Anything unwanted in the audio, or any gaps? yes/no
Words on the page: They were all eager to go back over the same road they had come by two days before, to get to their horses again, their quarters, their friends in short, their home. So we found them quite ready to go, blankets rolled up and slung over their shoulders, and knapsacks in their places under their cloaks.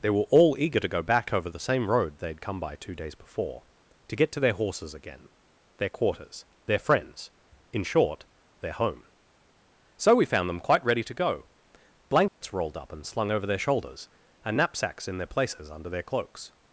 yes